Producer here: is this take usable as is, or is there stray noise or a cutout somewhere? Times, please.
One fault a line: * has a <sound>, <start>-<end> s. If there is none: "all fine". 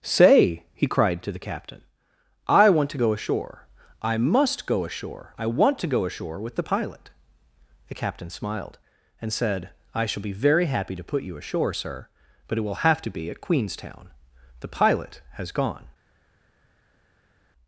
all fine